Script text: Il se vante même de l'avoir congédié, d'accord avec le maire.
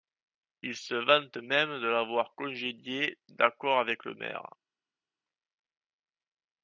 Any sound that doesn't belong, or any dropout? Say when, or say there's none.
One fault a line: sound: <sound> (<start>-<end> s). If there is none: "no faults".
no faults